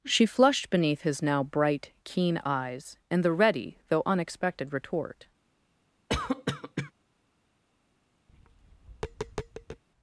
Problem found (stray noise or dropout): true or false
true